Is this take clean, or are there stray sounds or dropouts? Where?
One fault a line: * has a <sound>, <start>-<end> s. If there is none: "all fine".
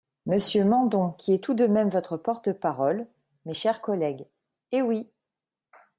all fine